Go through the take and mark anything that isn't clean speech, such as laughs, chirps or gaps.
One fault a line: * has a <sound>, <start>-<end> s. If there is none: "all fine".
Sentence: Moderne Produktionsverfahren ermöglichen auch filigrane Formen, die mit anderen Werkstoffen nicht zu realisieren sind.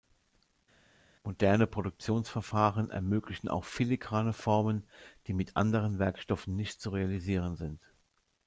all fine